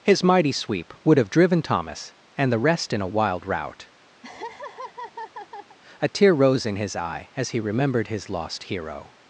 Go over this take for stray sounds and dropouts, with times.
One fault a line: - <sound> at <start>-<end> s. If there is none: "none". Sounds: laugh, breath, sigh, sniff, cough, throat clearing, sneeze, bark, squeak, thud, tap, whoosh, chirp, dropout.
- laugh at 4.2-5.8 s